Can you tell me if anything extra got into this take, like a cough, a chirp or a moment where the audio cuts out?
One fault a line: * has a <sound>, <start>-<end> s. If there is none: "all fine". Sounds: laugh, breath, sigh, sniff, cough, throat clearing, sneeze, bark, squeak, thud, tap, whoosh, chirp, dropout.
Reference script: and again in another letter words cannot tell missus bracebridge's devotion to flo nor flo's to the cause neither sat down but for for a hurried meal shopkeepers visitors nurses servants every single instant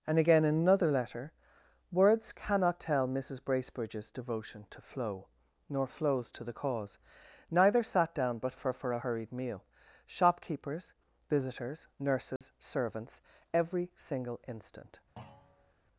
* has a dropout, 12.4-12.4 s
* has a thud, 15.2-15.7 s